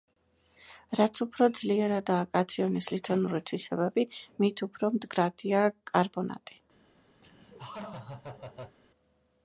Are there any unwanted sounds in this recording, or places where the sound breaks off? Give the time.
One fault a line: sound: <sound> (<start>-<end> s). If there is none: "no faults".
sound: laugh (7.2-8.8 s)